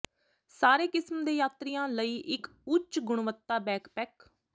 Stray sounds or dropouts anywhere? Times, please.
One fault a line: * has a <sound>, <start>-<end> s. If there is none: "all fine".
all fine